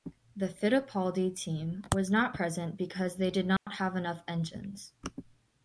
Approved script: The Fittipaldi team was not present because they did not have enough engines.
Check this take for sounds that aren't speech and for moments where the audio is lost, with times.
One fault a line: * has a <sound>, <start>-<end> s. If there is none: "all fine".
* has a dropout, 3.6-3.7 s